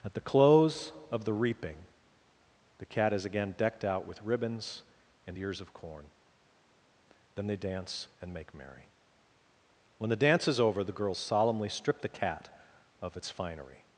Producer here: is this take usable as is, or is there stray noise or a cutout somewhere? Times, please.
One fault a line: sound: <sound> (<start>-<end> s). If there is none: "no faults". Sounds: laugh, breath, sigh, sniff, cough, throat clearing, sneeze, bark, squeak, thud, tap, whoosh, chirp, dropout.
no faults